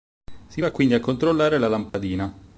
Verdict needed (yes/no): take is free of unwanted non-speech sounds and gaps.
no